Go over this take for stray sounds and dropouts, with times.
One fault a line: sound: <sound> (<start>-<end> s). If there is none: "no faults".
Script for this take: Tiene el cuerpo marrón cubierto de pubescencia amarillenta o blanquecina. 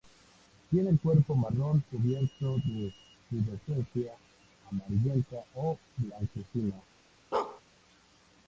sound: bark (7.3-7.6 s)